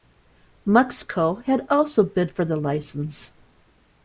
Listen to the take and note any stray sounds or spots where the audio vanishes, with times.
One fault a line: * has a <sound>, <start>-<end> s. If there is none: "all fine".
all fine